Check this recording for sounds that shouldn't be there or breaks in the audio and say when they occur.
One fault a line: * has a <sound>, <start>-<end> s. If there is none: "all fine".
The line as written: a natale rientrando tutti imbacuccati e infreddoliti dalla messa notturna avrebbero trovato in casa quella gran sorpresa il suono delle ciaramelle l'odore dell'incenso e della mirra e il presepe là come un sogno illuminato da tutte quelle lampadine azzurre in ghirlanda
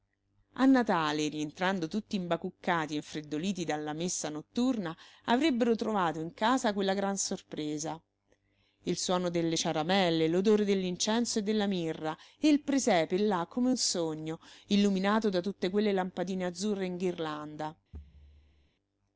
* has a thud, 17.9-18.7 s